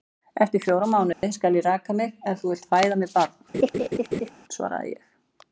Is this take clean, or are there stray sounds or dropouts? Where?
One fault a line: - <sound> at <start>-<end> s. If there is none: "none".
- dropout at 1.1-1.2 s
- laugh at 3.5-4.3 s